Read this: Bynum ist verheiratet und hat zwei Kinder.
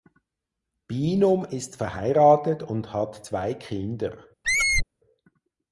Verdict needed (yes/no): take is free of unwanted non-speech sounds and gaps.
no